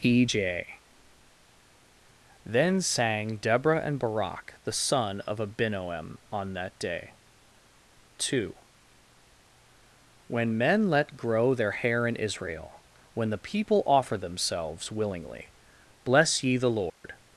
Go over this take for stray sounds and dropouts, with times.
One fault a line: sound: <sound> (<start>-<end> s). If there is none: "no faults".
sound: dropout (16.9-17.0 s)